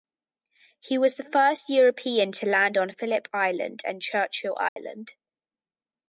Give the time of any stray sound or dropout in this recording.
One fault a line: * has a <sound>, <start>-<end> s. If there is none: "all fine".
* has a dropout, 4.7-4.8 s